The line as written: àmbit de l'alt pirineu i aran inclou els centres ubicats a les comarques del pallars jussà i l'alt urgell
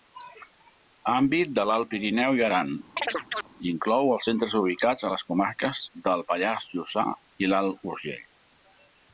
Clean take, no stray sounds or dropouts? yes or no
no